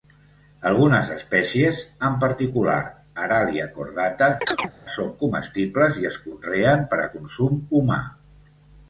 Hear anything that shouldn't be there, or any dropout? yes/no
yes